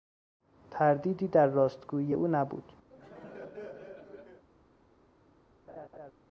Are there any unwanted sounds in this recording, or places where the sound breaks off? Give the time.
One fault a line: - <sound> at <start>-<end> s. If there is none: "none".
- laugh at 2.9-4.4 s
- laugh at 5.7-6.1 s